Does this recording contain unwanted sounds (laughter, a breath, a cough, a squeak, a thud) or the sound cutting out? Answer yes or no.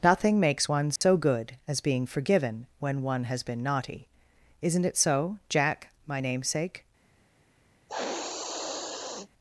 yes